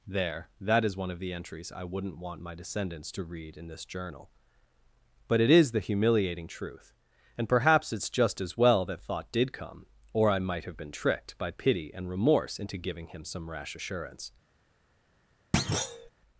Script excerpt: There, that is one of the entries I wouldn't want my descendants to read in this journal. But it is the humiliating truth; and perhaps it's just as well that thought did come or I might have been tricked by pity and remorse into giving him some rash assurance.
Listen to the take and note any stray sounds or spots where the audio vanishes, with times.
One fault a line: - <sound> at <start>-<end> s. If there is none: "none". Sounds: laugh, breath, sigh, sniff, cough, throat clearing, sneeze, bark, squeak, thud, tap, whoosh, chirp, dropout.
- thud at 15.5-16.1 s